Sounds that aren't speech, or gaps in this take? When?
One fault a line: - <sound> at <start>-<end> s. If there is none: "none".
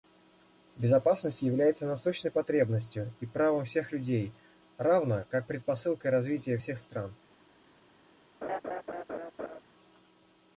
- laugh at 8.4-9.6 s